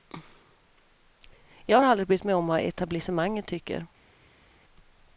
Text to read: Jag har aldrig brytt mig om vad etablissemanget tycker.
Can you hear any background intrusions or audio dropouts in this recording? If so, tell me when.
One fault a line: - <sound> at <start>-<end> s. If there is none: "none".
none